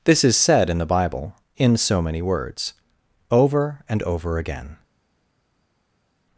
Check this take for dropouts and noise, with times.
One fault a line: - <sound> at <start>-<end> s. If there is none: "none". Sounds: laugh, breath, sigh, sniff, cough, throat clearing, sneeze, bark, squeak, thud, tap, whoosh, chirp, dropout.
none